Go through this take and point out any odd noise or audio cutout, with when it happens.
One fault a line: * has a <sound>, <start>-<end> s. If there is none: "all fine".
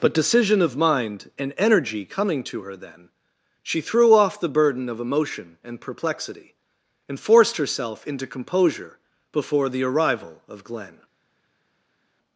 all fine